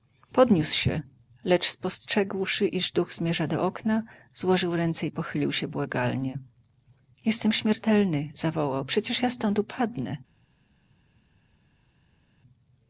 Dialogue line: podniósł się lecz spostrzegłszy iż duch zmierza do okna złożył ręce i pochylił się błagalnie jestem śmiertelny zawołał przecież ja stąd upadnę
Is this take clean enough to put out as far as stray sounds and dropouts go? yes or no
yes